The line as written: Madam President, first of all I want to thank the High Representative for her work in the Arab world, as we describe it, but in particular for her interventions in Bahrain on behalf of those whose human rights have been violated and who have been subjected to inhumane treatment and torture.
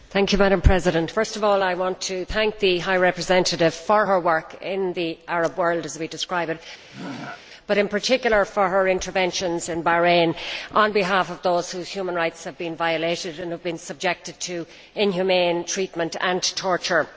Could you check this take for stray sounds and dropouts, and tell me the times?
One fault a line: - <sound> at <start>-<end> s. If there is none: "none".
- throat clearing at 6.9-7.4 s